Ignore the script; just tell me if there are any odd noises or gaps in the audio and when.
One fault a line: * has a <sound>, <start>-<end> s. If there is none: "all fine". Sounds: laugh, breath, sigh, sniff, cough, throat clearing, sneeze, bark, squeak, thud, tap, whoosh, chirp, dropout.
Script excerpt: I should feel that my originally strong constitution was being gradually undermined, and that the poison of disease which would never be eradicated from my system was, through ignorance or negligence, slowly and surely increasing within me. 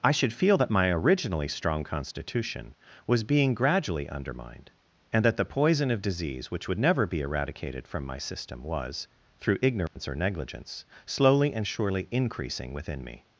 * has a dropout, 9.9-10.0 s